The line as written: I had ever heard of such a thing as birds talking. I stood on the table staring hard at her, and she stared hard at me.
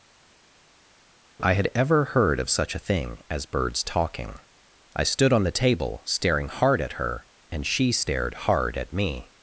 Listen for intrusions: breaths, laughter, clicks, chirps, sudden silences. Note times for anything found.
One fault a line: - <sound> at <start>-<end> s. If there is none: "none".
none